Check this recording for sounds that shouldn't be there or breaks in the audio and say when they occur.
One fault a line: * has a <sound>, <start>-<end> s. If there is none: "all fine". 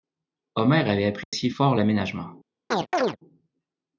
* has a dropout, 1.2-1.3 s
* has a chirp, 2.7-3.2 s